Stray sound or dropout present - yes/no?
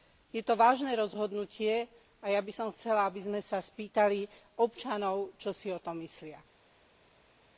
no